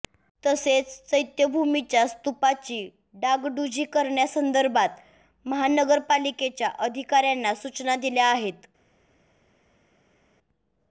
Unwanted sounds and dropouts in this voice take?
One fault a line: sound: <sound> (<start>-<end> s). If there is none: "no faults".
no faults